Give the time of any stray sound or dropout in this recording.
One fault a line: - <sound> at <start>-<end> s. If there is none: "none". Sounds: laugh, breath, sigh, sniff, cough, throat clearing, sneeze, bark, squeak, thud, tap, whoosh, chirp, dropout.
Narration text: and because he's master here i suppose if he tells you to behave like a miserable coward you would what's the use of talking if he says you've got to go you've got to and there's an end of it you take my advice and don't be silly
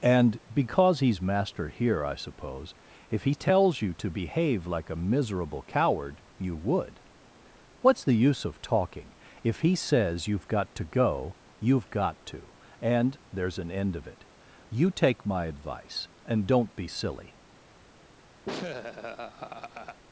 - laugh at 18.5-20.0 s